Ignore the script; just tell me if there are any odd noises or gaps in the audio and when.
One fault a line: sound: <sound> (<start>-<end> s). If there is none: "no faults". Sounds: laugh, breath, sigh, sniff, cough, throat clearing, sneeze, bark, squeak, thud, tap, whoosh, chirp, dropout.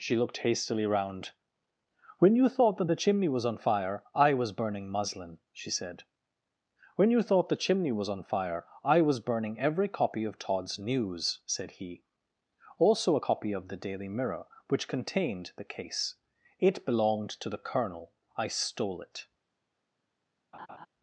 sound: laugh (20.5-20.9 s)